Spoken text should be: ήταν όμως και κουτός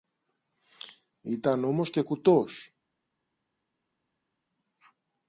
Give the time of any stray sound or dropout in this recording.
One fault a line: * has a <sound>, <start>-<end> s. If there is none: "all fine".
all fine